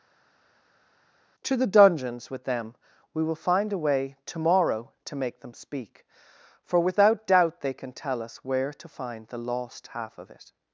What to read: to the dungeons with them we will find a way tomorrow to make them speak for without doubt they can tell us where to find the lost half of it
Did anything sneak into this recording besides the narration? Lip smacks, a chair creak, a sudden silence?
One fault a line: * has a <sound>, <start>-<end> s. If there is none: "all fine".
all fine